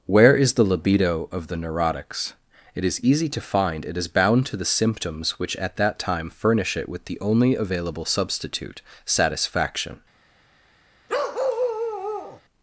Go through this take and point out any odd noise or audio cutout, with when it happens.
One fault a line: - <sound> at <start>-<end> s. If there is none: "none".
- bark at 11.1-12.4 s